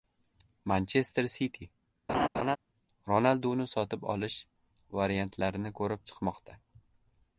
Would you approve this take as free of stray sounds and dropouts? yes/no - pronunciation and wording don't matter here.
no